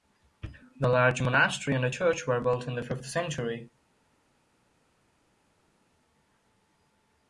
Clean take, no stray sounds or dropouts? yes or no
yes